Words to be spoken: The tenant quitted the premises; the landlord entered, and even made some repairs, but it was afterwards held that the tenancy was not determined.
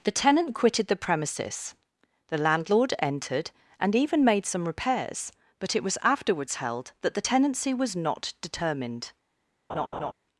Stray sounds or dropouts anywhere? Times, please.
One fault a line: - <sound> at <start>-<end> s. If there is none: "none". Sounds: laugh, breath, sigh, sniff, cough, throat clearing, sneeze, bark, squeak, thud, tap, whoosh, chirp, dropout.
- laugh at 9.7-10.1 s